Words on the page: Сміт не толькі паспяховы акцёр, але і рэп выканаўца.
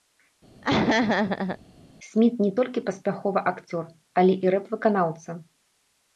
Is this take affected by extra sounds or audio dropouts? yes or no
yes